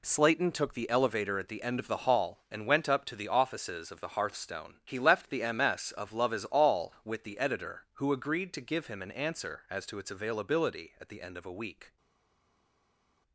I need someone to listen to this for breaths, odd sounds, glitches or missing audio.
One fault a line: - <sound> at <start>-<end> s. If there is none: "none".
none